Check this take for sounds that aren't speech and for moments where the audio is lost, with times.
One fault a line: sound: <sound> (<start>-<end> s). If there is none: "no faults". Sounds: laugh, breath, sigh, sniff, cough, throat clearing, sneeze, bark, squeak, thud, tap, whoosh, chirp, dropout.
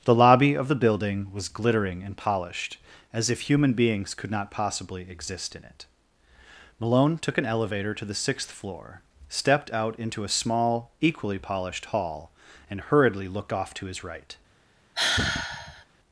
sound: sigh (14.9-15.8 s)